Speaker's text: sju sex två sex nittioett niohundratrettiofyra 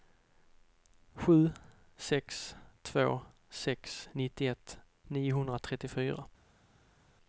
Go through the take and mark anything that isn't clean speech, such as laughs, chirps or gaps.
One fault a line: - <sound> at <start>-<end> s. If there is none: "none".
none